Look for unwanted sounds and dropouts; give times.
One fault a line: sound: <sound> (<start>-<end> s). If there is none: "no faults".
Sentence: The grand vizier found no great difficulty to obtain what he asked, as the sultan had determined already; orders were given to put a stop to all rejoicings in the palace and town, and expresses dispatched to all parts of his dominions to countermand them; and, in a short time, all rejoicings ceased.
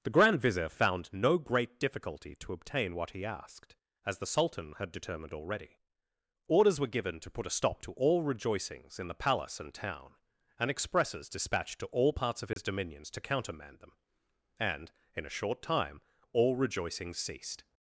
sound: dropout (12.5-12.6 s)